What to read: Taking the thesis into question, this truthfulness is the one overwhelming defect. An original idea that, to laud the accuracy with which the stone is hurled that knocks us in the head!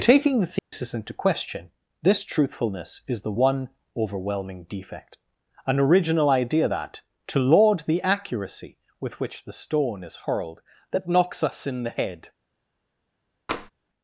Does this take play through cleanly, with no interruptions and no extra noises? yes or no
no